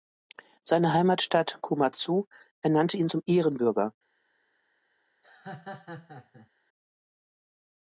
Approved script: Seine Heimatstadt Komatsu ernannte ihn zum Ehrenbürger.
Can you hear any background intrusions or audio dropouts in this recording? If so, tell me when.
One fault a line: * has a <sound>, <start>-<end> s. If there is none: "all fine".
* has a laugh, 5.2-6.5 s